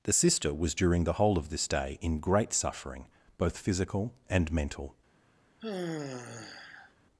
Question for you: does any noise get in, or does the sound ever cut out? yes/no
yes